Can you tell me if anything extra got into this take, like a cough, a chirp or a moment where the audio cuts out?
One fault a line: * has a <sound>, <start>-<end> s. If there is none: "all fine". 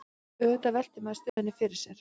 * has a dropout, 1.3-1.4 s